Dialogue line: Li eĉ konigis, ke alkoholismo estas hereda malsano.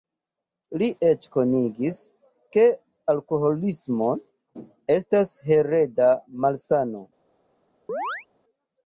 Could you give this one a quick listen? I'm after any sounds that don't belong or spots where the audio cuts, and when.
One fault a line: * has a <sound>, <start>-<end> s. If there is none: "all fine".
* has a chirp, 7.9-8.3 s